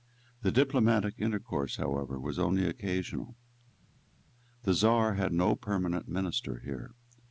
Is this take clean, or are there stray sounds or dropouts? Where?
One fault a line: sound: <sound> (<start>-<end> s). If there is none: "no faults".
no faults